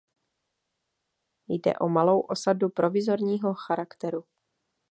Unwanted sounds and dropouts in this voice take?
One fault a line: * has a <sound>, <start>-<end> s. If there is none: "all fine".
all fine